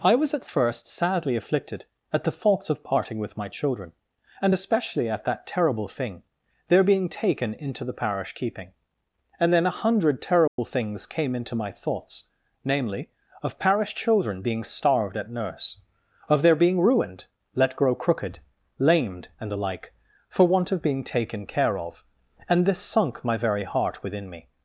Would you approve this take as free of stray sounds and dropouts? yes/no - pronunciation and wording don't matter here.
no